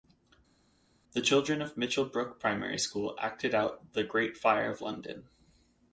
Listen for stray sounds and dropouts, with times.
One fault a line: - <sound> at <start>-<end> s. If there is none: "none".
none